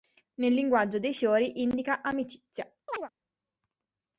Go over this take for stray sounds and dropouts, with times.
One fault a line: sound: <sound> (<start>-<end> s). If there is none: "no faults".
sound: chirp (2.9-3.1 s)